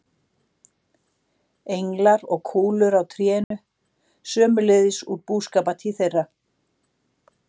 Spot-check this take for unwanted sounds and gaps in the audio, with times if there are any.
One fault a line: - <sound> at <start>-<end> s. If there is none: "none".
- dropout at 3.4-3.5 s